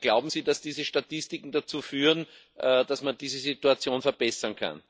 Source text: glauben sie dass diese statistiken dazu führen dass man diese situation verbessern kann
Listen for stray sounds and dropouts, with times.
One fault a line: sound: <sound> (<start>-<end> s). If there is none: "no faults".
no faults